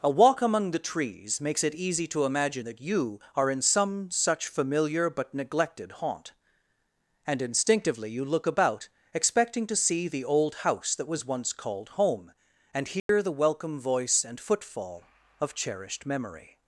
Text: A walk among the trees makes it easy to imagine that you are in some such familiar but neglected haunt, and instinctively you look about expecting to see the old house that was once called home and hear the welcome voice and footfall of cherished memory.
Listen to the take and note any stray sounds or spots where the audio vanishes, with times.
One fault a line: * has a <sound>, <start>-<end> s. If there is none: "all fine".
* has a dropout, 13.0-13.1 s